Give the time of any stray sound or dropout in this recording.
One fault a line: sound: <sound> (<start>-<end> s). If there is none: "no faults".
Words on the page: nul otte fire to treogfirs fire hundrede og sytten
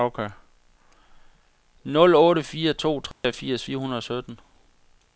sound: dropout (3.1-3.2 s)